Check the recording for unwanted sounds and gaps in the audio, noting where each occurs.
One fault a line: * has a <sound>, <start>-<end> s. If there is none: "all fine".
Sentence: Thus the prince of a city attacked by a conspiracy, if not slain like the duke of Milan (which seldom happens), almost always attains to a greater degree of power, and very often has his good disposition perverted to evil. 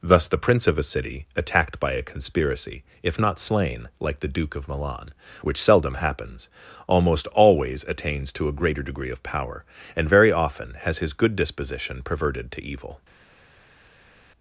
all fine